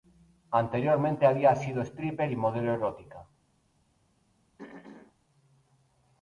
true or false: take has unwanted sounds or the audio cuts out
true